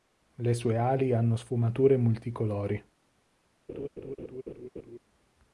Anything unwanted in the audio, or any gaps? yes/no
yes